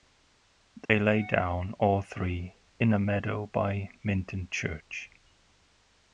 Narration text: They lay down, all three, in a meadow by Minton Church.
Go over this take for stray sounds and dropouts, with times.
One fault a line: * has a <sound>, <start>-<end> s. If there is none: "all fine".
* has a dropout, 0.9-0.9 s